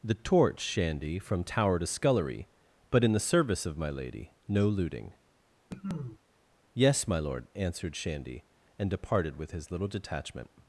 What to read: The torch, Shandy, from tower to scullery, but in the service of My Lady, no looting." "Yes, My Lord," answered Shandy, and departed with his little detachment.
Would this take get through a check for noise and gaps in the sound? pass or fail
fail